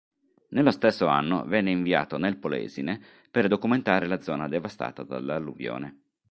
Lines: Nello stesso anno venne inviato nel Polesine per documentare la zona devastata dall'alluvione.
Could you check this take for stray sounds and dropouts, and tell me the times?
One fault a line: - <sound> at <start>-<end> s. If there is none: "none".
none